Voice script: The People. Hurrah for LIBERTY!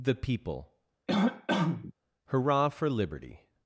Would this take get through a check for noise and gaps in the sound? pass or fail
fail